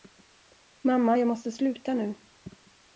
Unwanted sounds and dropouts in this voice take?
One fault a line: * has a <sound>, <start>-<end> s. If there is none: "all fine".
all fine